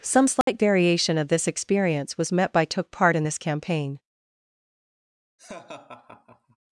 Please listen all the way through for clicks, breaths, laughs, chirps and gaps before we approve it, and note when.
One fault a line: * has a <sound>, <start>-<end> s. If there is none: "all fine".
* has a dropout, 0.4-0.5 s
* has a laugh, 5.4-6.6 s